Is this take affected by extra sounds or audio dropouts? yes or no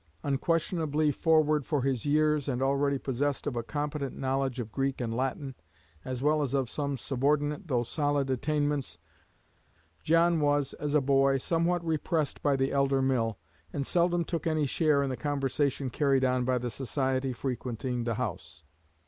no